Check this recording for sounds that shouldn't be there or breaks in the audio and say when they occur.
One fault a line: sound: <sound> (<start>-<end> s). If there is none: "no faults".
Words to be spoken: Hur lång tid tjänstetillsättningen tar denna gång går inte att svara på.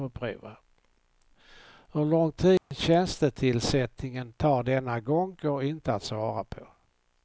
sound: dropout (2.6-2.7 s)